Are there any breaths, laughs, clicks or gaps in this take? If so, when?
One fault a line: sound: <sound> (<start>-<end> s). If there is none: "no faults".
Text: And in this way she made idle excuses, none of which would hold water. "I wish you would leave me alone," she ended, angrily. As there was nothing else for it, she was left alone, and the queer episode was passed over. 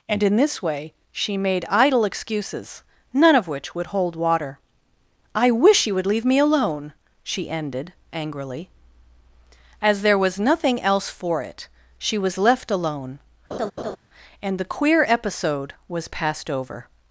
sound: laugh (13.5-14.0 s)